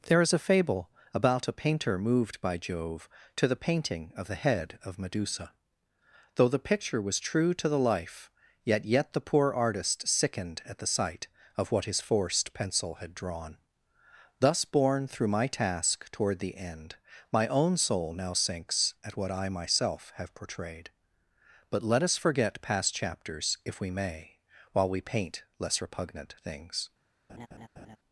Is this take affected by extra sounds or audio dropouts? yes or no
yes